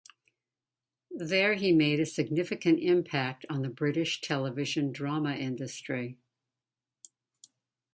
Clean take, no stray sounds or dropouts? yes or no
yes